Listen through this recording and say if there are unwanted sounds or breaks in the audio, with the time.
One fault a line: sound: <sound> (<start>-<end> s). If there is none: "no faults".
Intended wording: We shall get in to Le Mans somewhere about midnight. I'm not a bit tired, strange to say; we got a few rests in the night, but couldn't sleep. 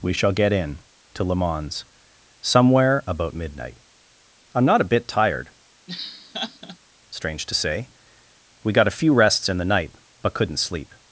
sound: laugh (5.9-6.8 s)